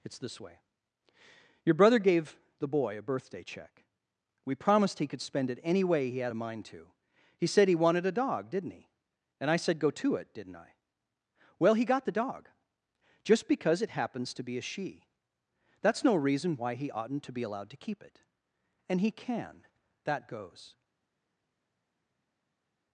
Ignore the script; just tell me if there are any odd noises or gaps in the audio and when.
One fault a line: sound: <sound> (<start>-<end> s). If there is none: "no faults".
no faults